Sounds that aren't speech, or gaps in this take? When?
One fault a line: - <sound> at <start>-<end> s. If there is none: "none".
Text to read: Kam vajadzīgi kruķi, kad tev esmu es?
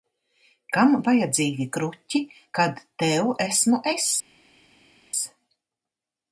none